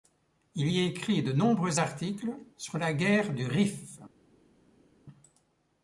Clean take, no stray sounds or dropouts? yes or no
yes